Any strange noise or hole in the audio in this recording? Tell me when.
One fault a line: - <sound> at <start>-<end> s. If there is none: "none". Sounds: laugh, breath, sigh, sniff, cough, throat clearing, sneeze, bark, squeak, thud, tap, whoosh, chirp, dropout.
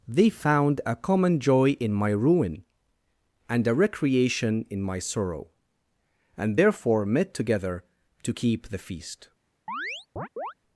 - chirp at 9.7-10.5 s